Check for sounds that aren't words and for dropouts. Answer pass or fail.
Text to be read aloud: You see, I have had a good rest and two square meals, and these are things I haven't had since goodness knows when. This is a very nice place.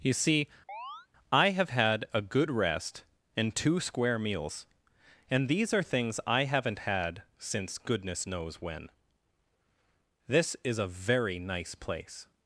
fail